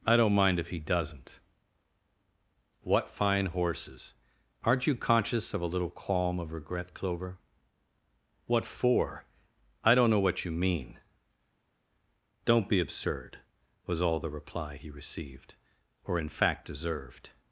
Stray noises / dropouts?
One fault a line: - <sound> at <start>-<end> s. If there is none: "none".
none